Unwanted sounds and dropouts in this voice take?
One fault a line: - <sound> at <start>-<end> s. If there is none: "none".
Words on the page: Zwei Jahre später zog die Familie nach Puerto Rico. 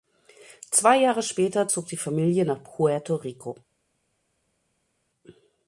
none